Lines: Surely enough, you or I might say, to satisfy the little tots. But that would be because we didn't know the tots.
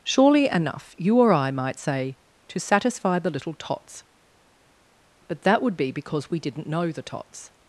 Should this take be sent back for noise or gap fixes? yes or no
no